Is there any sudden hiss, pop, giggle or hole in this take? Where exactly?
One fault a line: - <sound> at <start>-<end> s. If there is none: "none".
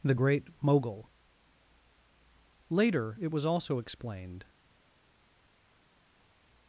none